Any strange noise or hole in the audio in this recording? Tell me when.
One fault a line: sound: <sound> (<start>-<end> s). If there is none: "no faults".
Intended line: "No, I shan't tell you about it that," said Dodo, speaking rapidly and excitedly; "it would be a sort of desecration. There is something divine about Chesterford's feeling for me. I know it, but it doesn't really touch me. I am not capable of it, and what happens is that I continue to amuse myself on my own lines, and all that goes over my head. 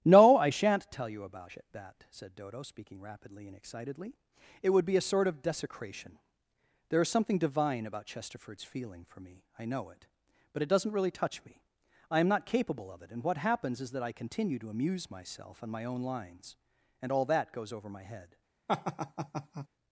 sound: laugh (18.7-19.7 s)